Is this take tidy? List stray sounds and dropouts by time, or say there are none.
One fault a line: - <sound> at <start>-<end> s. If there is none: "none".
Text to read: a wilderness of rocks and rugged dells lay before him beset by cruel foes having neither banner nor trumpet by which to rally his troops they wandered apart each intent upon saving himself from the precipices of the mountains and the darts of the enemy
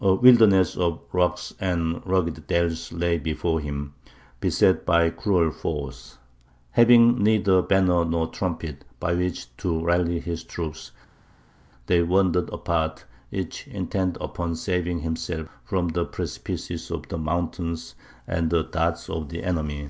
none